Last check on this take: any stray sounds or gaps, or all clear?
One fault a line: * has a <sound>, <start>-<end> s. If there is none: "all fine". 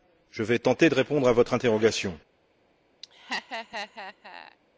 * has a laugh, 3.0-4.6 s